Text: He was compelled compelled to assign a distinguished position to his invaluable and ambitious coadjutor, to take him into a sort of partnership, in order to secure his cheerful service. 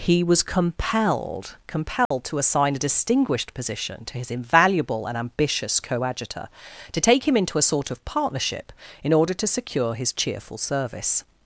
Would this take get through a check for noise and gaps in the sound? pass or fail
fail